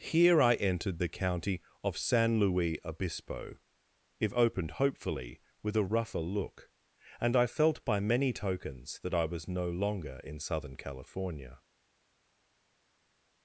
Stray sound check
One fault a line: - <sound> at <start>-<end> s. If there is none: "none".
none